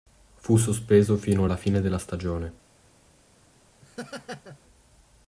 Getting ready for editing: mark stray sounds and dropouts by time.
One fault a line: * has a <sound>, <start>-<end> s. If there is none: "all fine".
* has a laugh, 3.8-4.6 s